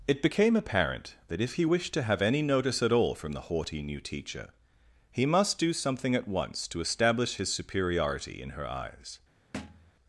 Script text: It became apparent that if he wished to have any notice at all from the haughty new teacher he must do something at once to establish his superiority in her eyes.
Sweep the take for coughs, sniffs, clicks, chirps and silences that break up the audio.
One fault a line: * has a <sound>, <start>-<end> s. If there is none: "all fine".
* has a thud, 9.5-9.9 s